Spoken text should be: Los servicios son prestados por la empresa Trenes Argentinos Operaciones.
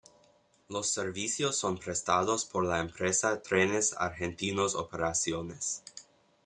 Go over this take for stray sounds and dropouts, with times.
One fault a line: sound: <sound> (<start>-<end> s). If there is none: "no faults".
no faults